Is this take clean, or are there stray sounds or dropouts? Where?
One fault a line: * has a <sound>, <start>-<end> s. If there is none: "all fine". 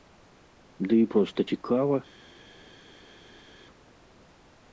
all fine